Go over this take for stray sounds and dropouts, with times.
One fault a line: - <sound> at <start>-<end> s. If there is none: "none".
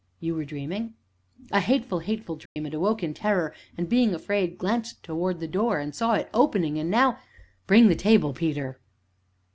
- dropout at 2.5-2.6 s